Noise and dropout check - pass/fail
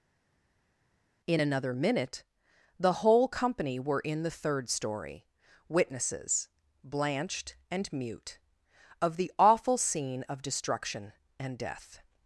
pass